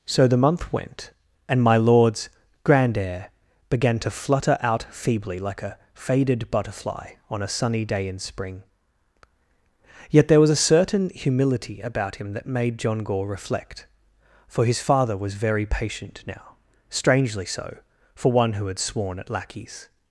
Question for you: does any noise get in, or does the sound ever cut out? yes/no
no